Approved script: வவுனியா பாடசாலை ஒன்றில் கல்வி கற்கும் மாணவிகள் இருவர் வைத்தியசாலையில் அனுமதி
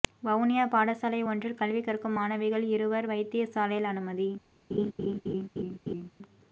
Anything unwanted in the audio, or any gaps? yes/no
yes